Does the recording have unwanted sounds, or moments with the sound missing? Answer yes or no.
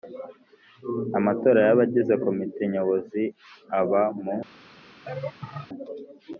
yes